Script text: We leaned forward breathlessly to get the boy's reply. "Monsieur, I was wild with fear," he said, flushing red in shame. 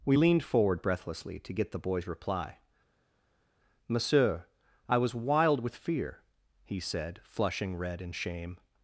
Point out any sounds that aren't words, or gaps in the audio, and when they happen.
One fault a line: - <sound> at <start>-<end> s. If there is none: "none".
none